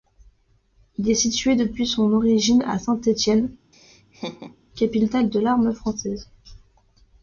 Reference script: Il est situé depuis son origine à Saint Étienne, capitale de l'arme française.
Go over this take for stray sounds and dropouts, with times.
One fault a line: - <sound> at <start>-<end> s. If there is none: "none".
- laugh at 3.7-4.6 s